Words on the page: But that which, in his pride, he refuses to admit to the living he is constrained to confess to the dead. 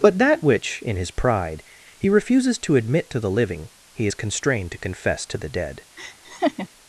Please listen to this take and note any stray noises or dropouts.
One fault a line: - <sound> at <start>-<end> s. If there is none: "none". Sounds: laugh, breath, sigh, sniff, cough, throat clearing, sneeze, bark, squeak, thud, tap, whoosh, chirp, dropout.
- laugh at 6.0-6.7 s